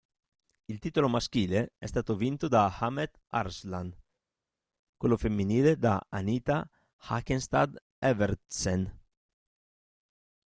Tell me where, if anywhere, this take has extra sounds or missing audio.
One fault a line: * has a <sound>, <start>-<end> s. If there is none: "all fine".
all fine